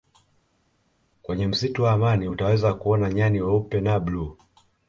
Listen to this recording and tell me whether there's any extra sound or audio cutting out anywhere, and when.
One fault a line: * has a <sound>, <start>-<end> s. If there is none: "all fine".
all fine